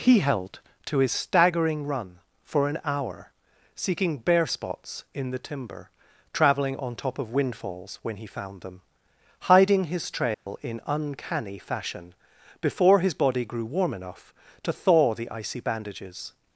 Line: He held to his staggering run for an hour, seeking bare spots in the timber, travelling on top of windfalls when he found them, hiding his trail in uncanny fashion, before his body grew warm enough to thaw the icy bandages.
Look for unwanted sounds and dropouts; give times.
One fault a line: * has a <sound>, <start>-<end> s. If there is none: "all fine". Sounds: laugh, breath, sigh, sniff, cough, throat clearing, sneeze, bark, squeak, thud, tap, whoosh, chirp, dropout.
* has a dropout, 10.3-10.5 s